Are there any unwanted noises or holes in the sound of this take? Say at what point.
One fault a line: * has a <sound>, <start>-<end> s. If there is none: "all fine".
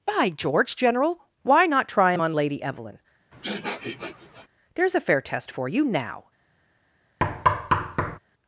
* has a sniff, 3.3-4.5 s
* has a thud, 7.2-8.2 s